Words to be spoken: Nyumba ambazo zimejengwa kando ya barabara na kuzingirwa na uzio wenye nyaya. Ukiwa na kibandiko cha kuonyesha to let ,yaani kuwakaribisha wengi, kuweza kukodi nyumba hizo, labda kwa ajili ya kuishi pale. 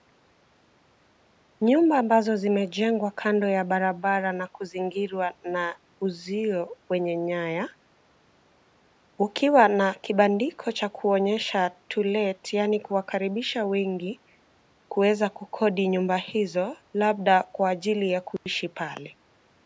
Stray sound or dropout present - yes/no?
yes